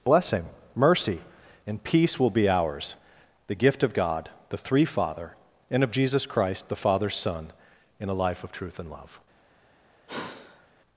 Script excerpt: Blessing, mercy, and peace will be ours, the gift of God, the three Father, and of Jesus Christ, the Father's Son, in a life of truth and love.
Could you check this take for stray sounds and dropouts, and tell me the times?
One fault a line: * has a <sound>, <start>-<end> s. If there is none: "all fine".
* has a sigh, 10.1-10.7 s